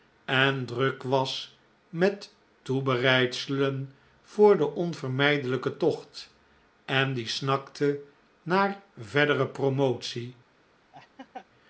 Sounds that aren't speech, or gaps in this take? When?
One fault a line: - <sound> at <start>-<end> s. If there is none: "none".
- laugh at 10.9-11.5 s